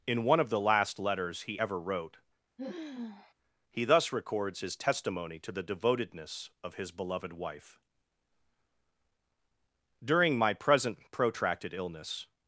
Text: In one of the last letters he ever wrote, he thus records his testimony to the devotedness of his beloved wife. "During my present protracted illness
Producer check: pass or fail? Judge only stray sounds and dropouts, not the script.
fail